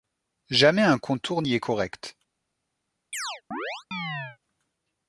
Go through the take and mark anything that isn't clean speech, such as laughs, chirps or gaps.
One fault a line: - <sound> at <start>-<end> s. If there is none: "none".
- chirp at 3.1-4.4 s